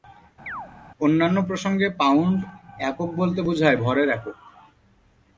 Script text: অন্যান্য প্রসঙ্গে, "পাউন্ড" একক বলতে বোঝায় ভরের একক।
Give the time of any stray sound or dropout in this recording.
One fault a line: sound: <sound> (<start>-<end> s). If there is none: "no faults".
sound: chirp (0.5-0.7 s)